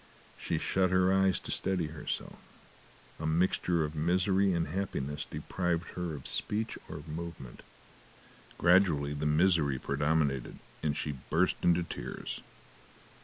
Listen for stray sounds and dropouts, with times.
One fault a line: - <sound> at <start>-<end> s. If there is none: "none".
none